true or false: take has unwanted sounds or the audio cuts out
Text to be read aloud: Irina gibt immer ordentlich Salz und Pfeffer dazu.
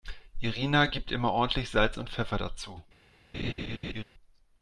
true